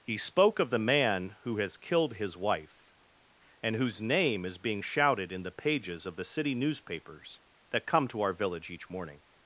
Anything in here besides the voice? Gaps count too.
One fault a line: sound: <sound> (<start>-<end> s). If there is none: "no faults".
no faults